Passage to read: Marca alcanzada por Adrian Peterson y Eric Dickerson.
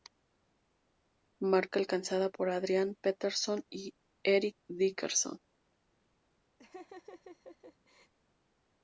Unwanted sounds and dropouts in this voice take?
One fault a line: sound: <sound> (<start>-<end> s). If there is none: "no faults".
sound: laugh (6.6-8.1 s)